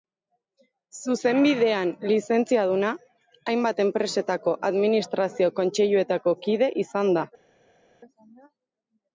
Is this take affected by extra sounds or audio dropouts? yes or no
no